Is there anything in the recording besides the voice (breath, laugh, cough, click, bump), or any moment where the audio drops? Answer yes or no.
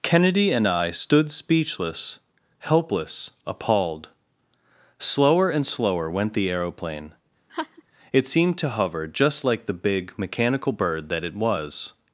yes